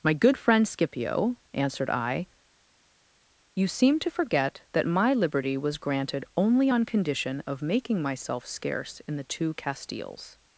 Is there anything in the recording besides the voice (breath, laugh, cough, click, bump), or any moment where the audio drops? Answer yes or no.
no